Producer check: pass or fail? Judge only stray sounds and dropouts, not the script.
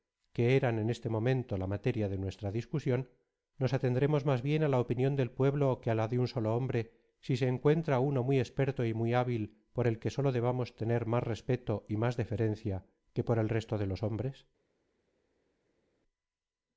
pass